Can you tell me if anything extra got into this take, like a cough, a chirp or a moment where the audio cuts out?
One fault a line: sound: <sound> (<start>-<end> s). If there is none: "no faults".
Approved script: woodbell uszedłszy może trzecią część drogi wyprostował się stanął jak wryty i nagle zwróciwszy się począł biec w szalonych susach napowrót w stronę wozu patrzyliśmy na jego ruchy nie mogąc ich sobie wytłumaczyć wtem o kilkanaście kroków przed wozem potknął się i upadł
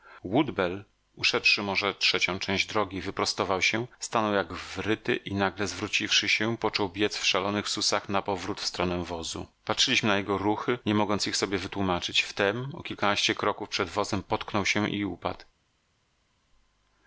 no faults